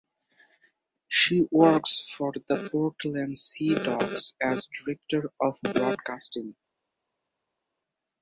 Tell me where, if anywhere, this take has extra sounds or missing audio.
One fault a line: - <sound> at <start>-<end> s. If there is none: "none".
none